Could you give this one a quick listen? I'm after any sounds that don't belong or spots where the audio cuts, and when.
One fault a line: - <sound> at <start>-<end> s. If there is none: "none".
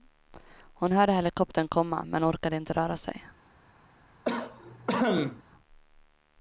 - cough at 4.2-5.4 s